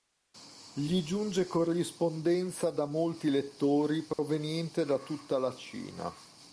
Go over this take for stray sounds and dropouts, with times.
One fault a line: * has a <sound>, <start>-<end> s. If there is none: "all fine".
* has a dropout, 4.1-4.2 s